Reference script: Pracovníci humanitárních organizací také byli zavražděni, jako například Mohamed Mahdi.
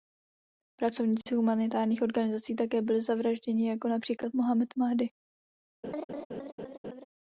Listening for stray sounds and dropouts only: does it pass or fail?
fail